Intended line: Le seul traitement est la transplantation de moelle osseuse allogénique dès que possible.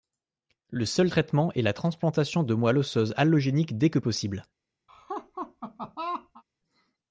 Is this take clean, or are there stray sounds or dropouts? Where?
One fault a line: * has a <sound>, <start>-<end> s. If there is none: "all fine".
* has a laugh, 4.9-6.4 s